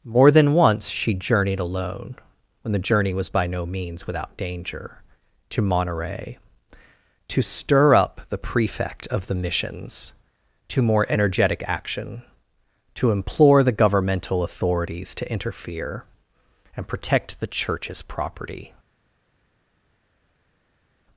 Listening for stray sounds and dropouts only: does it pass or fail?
pass